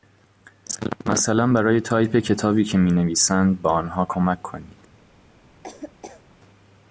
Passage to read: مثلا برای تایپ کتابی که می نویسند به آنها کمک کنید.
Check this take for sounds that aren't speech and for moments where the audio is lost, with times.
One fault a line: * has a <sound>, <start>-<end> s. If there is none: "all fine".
* has a laugh, 5.6-6.2 s